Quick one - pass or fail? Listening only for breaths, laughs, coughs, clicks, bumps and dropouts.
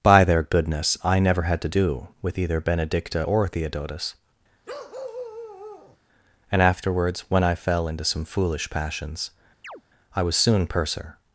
fail